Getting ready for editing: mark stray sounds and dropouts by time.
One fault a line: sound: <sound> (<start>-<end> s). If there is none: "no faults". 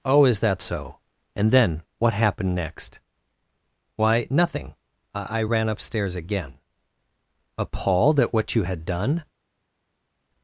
no faults